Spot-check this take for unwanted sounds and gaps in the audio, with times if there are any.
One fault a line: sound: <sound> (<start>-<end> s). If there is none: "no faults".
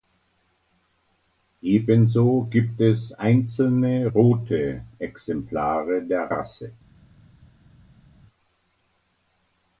no faults